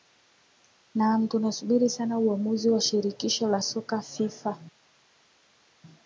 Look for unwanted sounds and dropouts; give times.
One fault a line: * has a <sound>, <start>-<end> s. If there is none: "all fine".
all fine